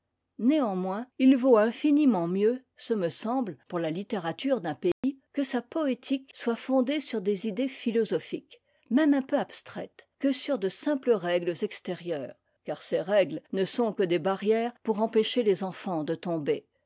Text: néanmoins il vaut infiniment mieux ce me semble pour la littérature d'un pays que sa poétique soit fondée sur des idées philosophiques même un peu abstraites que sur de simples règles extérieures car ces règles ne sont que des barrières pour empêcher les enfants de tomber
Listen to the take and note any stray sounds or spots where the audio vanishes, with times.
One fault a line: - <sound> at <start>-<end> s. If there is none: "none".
- dropout at 4.9-5.0 s